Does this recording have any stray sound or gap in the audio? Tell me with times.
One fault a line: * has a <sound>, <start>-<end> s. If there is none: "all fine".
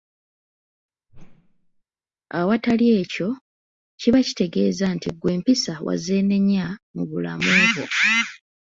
* has a whoosh, 1.1-1.8 s